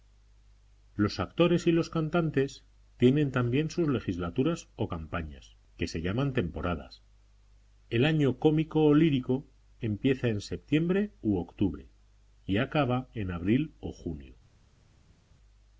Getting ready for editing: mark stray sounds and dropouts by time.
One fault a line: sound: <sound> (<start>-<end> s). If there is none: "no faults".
no faults